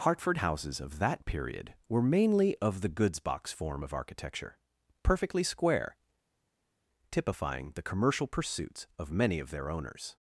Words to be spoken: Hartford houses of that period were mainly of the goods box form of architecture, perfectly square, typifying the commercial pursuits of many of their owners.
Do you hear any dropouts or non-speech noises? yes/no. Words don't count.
no